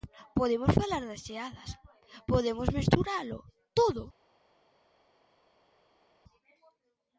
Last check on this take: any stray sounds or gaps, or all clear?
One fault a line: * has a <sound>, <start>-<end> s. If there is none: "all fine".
all fine